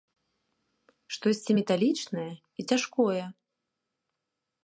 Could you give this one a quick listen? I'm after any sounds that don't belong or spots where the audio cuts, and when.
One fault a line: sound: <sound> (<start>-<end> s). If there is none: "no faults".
no faults